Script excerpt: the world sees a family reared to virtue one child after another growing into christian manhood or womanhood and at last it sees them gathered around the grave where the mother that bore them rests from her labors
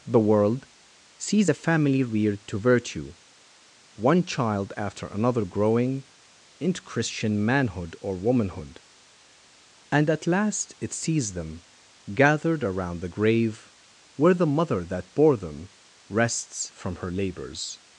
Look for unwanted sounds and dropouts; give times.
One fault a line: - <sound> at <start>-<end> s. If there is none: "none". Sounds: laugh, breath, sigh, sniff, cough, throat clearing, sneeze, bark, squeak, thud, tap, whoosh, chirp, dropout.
none